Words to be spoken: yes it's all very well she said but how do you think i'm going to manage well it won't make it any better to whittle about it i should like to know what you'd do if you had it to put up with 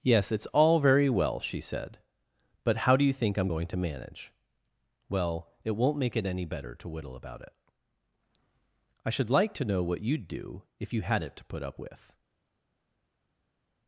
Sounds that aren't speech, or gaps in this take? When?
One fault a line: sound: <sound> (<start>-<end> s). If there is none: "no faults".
no faults